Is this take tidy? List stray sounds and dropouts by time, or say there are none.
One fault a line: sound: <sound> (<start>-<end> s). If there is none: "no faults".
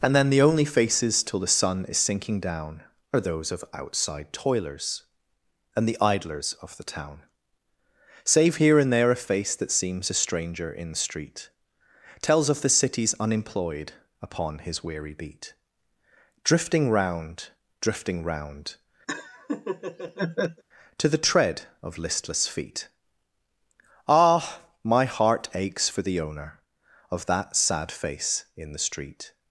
sound: laugh (19.1-20.6 s)